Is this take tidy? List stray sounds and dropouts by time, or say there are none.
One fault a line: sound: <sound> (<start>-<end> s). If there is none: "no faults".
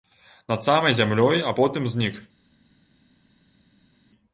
no faults